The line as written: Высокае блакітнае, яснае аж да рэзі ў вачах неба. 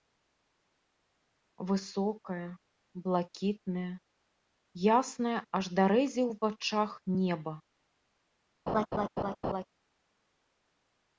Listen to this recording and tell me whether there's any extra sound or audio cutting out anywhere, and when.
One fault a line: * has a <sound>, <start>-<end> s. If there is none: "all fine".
* has a laugh, 8.7-9.7 s